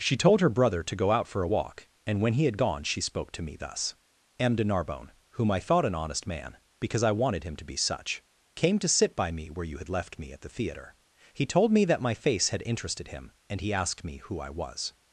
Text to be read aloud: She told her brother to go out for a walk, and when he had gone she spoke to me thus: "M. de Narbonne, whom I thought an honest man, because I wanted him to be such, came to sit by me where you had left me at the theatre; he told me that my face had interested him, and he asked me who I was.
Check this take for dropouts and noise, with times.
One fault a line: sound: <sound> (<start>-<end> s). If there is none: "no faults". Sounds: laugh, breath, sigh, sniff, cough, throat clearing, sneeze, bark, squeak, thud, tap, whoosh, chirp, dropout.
no faults